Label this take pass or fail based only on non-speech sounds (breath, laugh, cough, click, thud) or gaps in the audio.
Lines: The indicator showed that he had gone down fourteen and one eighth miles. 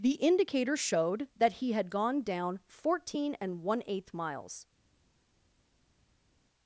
pass